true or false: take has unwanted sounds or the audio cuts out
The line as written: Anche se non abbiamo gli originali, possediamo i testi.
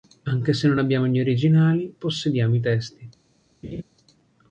true